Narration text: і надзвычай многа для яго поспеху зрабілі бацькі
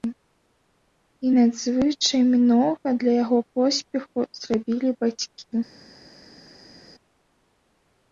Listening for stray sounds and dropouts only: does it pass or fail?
pass